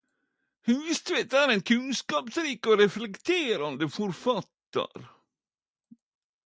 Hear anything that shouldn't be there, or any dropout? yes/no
no